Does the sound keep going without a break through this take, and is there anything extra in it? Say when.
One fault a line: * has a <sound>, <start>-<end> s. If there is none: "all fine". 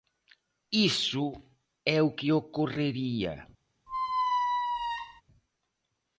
* has a squeak, 3.9-5.2 s